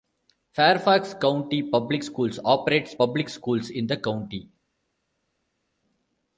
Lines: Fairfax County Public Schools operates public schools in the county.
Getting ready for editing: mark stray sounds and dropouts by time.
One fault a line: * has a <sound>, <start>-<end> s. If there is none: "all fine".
all fine